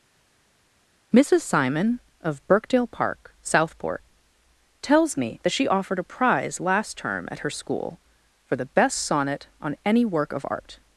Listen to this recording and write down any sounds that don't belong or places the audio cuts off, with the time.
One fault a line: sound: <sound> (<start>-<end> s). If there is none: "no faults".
no faults